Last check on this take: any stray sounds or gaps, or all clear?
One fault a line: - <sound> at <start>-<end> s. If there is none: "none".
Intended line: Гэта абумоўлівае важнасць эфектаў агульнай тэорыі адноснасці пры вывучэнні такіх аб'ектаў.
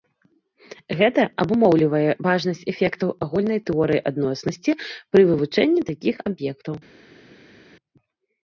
none